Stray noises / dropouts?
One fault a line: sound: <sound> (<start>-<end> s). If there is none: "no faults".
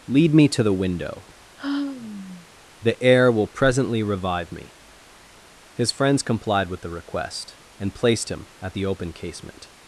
sound: sigh (1.6-2.5 s)